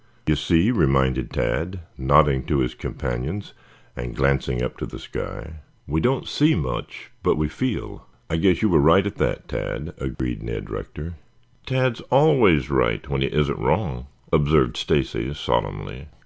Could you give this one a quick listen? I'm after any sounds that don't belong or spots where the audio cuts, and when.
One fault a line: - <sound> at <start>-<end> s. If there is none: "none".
- dropout at 10.2-10.2 s